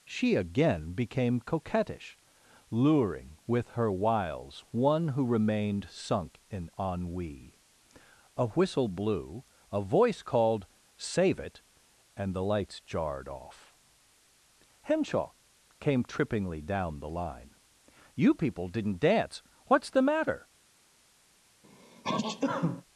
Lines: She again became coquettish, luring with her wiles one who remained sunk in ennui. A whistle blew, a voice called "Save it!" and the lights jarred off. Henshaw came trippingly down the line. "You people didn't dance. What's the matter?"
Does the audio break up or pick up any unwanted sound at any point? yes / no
yes